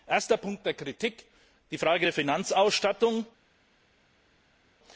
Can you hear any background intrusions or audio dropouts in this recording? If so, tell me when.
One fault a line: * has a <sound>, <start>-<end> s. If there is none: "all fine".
all fine